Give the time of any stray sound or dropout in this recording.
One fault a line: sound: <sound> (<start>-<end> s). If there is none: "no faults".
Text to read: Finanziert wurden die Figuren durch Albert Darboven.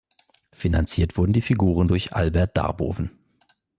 no faults